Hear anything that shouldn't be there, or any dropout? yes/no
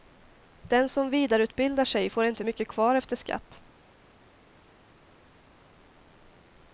no